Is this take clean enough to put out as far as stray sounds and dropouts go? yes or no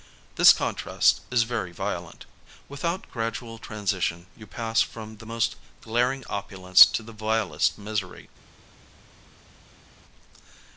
yes